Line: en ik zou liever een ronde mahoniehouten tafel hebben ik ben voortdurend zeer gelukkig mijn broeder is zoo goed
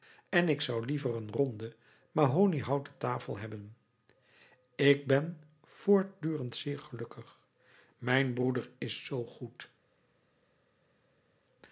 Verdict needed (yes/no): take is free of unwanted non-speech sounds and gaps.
yes